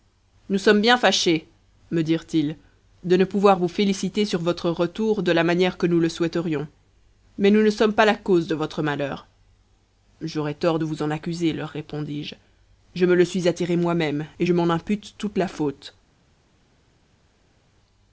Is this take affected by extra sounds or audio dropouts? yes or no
no